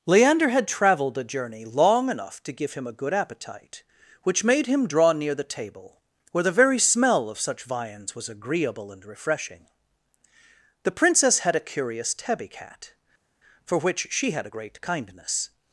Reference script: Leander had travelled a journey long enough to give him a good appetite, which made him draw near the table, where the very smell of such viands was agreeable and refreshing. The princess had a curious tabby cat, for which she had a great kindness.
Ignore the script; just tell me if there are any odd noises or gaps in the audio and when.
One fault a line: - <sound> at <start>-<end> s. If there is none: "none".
none